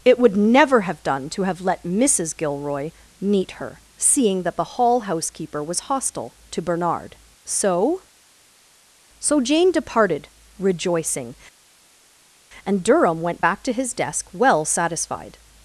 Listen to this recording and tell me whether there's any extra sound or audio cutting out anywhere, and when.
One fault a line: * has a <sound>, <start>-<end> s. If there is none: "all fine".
all fine